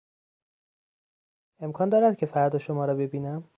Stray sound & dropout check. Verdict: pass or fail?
pass